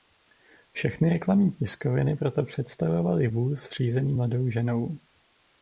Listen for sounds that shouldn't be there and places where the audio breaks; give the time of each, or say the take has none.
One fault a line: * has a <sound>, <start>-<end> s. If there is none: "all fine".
all fine